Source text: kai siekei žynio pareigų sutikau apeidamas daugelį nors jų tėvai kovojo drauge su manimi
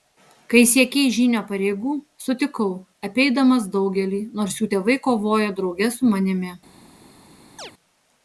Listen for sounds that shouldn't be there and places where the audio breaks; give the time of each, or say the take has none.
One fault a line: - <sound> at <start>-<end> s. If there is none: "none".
- chirp at 7.6-7.7 s